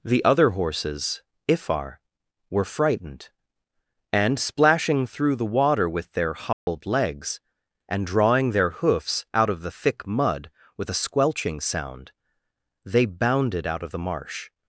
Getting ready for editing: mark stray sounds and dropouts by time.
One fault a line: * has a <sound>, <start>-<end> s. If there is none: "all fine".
* has a dropout, 6.5-6.7 s